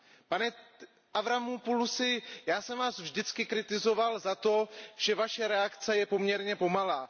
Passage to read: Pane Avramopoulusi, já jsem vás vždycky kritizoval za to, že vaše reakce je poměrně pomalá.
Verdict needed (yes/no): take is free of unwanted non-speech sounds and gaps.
yes